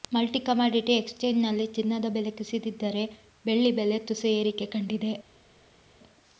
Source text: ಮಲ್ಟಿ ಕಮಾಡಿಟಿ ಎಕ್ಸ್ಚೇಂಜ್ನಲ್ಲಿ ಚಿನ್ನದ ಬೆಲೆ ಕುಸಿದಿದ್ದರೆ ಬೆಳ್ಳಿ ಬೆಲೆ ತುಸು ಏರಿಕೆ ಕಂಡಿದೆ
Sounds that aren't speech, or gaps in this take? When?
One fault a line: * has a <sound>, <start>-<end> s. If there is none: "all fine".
all fine